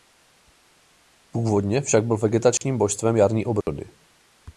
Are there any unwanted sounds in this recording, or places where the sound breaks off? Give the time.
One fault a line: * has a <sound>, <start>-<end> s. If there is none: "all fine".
* has a dropout, 2.6-2.6 s
* has a dropout, 3.6-3.7 s